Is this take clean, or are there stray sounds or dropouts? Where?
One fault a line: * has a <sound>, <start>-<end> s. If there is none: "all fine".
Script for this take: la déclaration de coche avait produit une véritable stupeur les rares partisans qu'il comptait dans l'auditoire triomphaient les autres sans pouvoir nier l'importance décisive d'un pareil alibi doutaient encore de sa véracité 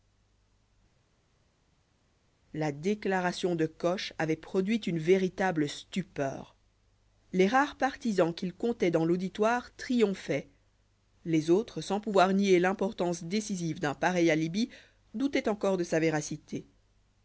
all fine